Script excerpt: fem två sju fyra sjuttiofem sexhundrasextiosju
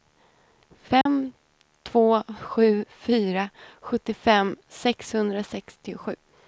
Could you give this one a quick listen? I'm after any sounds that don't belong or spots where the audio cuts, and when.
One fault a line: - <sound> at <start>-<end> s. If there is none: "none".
- dropout at 1.0-1.1 s